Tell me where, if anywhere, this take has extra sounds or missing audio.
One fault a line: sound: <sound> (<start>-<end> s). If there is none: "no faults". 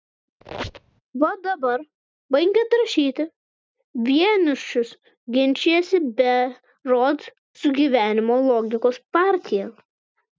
sound: squeak (0.4-1.0 s)